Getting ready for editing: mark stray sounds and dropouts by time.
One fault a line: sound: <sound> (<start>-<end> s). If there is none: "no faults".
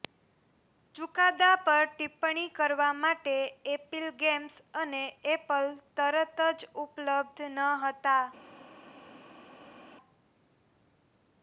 no faults